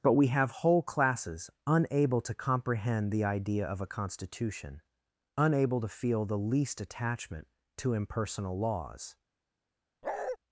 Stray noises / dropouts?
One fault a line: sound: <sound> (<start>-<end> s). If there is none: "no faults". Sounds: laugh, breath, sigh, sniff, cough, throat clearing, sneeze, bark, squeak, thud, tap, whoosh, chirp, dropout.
sound: bark (10.0-10.4 s)